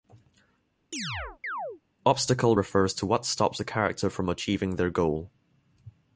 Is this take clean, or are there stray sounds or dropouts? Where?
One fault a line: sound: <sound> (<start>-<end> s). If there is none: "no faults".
sound: chirp (0.9-1.8 s)